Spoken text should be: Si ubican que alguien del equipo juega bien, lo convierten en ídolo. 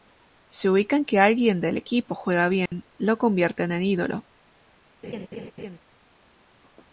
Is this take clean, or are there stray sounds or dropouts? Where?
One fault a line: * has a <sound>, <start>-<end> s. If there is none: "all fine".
* has a dropout, 2.7-2.7 s
* has a laugh, 5.0-5.8 s